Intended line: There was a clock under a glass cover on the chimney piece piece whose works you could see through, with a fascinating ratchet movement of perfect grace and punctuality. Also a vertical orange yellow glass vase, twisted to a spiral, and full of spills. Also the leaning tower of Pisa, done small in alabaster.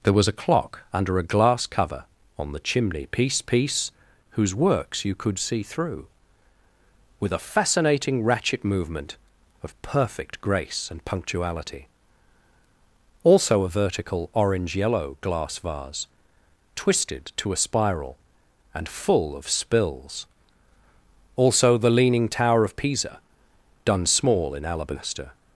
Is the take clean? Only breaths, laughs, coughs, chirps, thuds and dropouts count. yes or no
yes